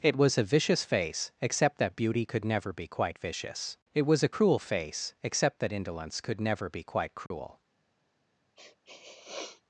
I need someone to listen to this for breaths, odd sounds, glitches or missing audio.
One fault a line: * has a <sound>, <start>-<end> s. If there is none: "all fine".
* has a dropout, 7.3-7.3 s
* has a sniff, 8.6-9.6 s